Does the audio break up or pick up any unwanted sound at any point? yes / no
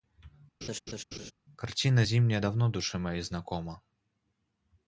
yes